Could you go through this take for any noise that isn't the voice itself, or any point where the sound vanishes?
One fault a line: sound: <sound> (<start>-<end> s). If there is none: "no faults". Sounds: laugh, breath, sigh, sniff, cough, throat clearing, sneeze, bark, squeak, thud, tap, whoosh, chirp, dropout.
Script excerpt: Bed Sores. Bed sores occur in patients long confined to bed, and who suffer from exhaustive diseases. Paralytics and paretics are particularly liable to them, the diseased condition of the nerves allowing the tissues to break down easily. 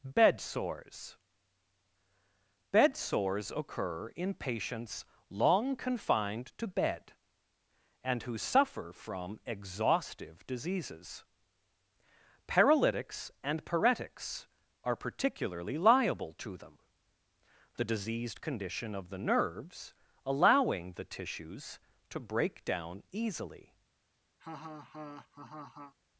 sound: laugh (24.4-25.9 s)